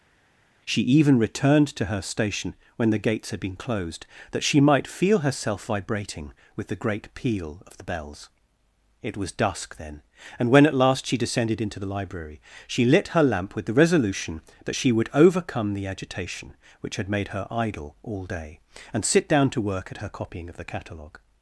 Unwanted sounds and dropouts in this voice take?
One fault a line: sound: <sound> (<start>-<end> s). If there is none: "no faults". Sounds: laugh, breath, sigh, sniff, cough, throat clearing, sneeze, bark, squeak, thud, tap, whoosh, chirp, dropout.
no faults